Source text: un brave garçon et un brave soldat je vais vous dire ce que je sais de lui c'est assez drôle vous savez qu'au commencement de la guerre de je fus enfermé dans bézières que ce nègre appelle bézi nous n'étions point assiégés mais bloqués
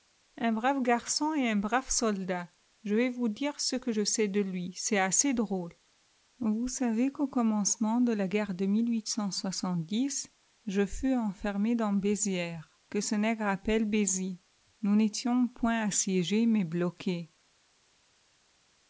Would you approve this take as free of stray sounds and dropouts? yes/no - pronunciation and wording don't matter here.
yes